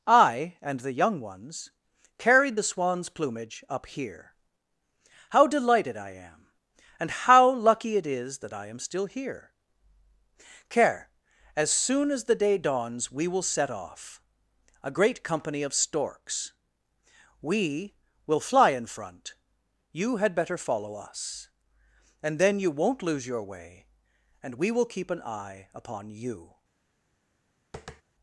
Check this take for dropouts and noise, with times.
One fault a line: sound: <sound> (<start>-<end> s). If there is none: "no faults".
sound: tap (27.7-28.0 s)